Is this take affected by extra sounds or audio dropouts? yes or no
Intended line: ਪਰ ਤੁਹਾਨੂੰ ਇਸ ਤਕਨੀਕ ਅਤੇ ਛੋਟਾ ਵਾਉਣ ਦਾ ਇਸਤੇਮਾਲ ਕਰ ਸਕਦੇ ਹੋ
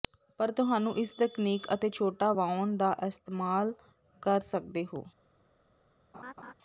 yes